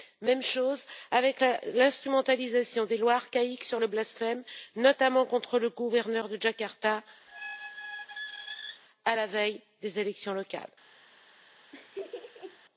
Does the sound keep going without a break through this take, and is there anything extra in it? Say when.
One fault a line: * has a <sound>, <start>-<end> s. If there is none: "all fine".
* has a squeak, 7.3-8.8 s
* has a laugh, 11.7-12.6 s